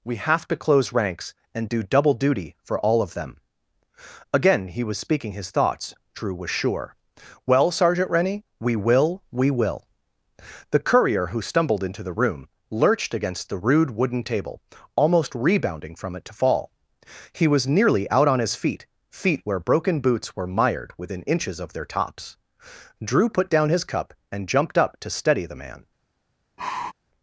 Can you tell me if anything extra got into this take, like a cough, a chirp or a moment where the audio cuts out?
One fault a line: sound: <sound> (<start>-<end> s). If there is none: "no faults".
sound: sigh (26.6-26.9 s)